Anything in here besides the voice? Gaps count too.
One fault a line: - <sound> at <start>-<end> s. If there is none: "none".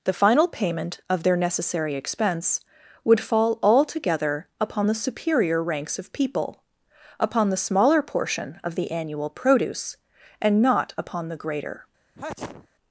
- sneeze at 12.2-12.7 s